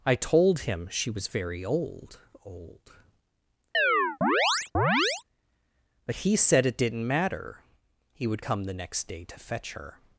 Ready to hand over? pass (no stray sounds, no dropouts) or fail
fail